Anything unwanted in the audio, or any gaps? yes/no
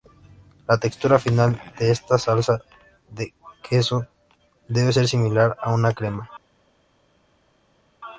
no